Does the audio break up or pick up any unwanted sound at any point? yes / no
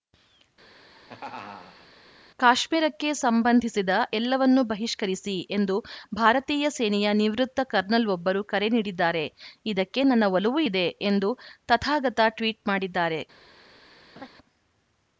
yes